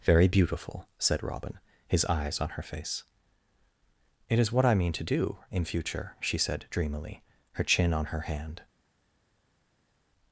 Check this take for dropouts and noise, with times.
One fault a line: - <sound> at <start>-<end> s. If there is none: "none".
none